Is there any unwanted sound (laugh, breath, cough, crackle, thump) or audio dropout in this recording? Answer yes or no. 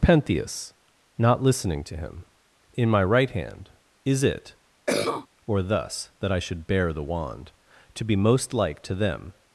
yes